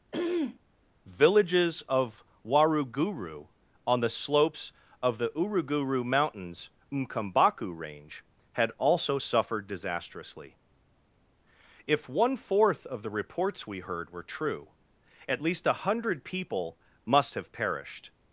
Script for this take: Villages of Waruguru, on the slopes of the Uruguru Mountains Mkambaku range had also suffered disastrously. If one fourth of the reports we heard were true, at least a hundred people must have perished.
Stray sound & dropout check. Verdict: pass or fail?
fail